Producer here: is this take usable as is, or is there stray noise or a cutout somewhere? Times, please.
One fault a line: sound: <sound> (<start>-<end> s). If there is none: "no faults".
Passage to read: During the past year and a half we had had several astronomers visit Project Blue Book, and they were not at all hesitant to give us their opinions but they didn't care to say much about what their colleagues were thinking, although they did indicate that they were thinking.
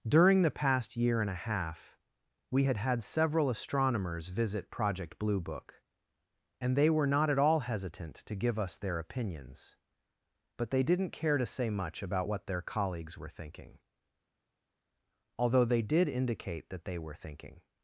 no faults